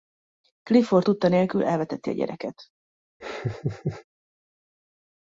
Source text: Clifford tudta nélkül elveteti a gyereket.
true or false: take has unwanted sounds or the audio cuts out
true